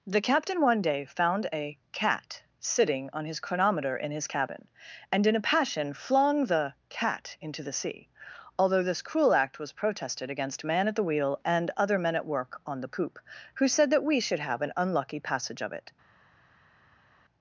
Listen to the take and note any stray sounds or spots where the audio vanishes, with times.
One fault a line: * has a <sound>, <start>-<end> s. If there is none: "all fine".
all fine